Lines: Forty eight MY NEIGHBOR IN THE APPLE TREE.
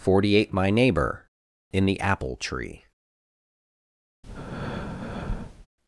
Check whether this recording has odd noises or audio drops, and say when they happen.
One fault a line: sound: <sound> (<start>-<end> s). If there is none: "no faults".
sound: breath (4.2-5.7 s)